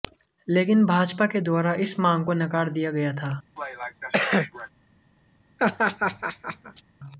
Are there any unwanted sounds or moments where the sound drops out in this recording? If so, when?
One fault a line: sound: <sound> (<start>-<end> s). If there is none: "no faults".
sound: cough (3.6-4.7 s)
sound: laugh (5.6-6.8 s)